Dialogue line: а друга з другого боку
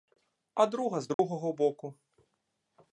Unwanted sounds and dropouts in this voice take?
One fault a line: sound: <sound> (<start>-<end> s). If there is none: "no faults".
sound: dropout (1.1-1.2 s)